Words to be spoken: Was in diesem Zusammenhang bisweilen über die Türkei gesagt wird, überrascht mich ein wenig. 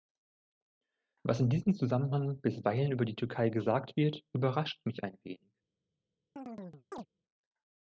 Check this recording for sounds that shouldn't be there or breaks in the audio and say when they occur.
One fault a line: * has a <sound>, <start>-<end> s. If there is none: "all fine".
* has a chirp, 6.4-7.1 s